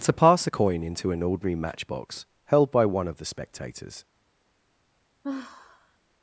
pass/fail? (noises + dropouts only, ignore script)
fail